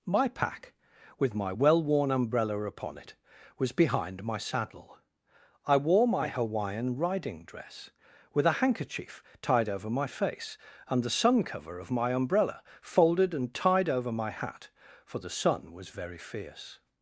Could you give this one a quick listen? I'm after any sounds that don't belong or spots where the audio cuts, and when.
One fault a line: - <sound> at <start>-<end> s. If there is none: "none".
none